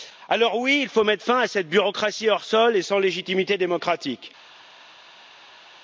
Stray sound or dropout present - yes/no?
no